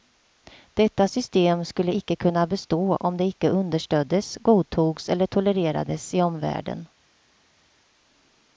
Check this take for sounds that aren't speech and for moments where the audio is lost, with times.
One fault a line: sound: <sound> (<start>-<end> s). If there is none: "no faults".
no faults